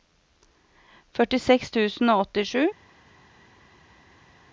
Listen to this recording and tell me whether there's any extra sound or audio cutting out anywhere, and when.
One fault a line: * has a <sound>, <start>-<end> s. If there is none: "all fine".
all fine